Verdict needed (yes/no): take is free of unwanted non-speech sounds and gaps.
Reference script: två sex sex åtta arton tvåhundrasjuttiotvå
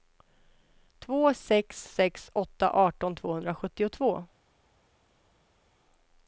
yes